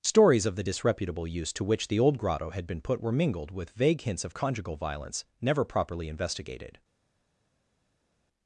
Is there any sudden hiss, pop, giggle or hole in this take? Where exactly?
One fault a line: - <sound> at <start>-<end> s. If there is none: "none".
none